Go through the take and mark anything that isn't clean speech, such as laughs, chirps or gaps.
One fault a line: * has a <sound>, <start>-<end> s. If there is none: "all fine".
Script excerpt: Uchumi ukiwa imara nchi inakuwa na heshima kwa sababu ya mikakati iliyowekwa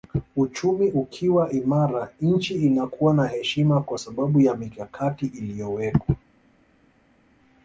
all fine